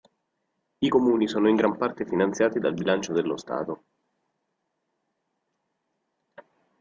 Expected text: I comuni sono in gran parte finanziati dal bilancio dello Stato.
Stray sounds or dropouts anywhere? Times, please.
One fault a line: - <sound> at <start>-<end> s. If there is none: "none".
none